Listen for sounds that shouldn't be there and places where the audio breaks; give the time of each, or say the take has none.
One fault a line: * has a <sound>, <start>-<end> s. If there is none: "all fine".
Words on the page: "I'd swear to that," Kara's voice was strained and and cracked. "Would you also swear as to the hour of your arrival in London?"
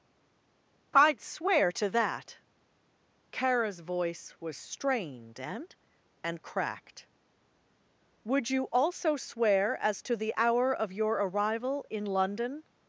all fine